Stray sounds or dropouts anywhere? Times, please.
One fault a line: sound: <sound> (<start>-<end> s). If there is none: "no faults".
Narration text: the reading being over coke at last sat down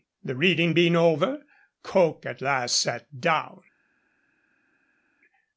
no faults